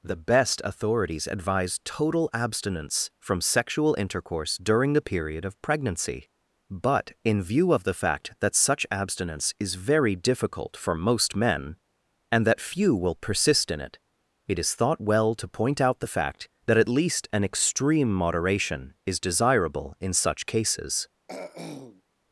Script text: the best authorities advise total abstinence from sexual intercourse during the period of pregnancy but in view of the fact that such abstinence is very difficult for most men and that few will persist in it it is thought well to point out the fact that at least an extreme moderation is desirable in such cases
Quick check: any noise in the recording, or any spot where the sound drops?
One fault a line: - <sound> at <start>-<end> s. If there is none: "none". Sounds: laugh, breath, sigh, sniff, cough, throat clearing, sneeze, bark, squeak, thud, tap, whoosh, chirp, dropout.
- throat clearing at 21.3-22.0 s